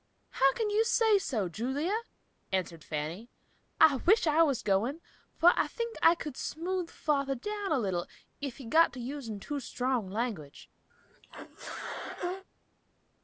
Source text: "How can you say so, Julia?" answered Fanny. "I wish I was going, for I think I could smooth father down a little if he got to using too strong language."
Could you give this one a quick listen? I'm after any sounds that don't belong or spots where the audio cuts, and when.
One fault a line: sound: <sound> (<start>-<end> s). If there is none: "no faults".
sound: sneeze (10.9-12.4 s)